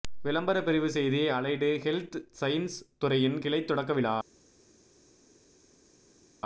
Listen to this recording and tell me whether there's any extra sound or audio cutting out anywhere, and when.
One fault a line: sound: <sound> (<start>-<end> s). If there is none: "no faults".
no faults